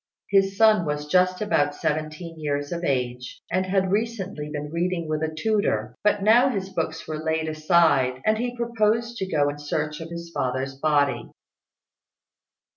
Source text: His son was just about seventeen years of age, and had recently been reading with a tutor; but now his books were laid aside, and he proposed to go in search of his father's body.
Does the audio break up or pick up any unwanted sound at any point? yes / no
no